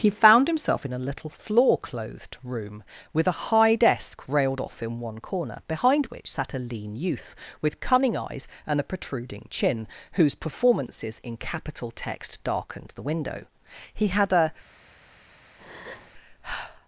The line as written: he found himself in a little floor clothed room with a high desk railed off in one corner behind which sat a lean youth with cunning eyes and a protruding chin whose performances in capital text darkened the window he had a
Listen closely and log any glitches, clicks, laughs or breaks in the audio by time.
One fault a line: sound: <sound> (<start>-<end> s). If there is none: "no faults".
sound: breath (15.6-16.1 s)